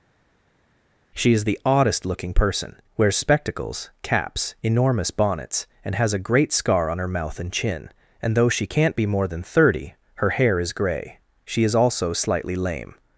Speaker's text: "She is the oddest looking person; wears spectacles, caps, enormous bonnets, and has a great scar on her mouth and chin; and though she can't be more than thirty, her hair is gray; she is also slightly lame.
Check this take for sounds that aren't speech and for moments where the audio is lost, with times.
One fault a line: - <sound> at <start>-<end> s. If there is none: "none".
none